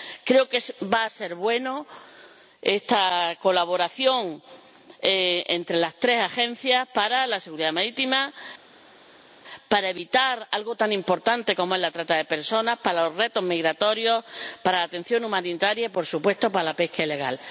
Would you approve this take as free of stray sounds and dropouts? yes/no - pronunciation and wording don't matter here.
yes